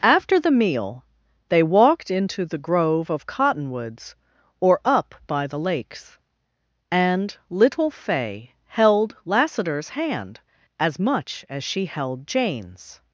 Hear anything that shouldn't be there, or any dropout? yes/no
no